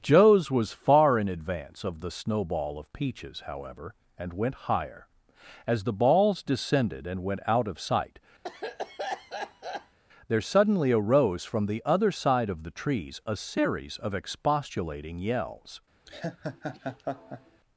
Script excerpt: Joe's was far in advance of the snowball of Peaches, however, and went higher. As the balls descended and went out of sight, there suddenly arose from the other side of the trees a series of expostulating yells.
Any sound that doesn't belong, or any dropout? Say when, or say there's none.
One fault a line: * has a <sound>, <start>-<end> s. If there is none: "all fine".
* has a cough, 8.4-10.0 s
* has a laugh, 16.1-17.6 s